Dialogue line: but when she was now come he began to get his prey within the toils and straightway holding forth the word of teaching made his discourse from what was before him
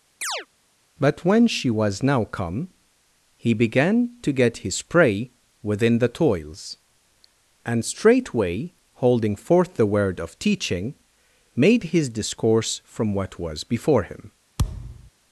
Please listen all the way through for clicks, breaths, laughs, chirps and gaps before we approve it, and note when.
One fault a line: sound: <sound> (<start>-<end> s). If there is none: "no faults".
sound: chirp (0.2-0.5 s)
sound: thud (14.6-15.1 s)